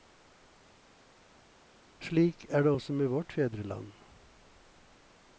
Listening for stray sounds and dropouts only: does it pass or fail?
pass